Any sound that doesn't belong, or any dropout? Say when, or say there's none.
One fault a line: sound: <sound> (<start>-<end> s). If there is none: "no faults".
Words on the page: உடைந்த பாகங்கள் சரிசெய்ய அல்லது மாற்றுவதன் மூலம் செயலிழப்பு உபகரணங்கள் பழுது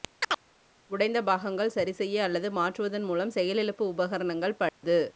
sound: chirp (0.2-0.4 s)
sound: dropout (4.7-4.8 s)